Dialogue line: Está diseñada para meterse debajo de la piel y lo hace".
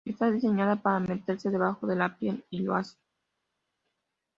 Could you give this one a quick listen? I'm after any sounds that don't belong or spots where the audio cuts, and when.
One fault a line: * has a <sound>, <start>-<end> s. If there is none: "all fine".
all fine